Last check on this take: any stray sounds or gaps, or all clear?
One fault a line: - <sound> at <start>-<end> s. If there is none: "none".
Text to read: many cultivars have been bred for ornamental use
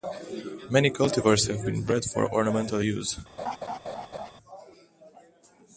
- laugh at 3.4-4.3 s